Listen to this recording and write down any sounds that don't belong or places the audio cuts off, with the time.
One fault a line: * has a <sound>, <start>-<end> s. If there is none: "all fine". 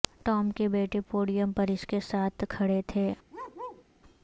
* has a bark, 3.3-3.8 s